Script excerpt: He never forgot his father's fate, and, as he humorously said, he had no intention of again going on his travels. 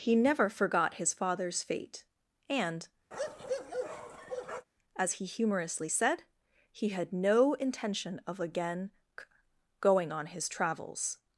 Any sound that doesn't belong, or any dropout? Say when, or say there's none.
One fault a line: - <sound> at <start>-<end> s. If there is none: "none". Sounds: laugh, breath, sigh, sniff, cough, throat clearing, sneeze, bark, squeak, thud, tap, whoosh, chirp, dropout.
- bark at 3.1-4.7 s